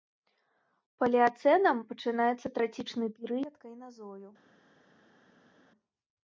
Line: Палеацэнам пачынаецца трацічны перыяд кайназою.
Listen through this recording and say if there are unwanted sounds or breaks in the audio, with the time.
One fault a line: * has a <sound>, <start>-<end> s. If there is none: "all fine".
all fine